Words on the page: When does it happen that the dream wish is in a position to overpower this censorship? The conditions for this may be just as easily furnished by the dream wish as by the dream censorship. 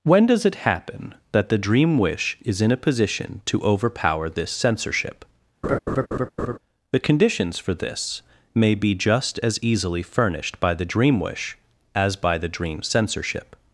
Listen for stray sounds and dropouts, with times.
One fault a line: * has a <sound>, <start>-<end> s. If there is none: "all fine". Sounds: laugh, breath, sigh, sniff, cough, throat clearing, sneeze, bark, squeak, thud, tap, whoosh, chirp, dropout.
* has a laugh, 5.6-6.6 s